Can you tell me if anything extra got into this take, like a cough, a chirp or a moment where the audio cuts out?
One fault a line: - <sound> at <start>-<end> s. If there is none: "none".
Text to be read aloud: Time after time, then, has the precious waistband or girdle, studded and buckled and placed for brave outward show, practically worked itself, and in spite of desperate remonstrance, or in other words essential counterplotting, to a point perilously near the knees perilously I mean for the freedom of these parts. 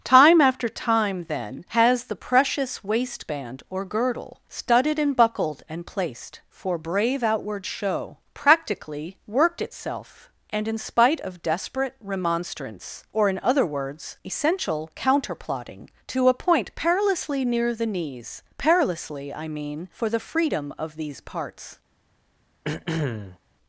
- throat clearing at 22.6-23.4 s